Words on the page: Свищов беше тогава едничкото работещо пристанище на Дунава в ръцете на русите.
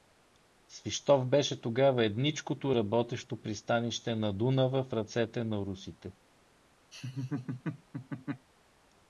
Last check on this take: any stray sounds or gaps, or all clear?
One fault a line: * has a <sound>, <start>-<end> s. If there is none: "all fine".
* has a laugh, 6.9-8.5 s